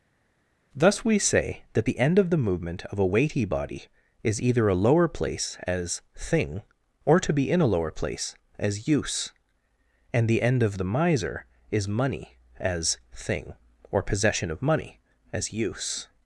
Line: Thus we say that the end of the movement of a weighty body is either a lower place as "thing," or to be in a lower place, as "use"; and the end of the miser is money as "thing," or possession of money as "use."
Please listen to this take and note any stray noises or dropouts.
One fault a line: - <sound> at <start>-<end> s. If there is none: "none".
none